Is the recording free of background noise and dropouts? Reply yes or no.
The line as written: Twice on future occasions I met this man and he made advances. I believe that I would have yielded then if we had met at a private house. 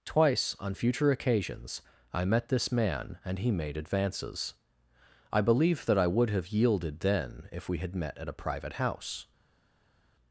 yes